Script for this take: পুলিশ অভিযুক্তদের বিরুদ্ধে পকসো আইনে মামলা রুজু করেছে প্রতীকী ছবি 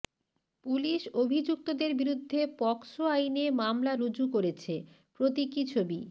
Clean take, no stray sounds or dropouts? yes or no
yes